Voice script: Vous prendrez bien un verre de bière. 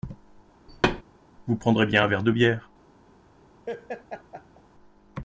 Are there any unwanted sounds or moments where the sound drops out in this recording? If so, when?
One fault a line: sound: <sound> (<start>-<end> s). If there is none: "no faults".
sound: thud (0.7-1.0 s)
sound: laugh (3.7-4.6 s)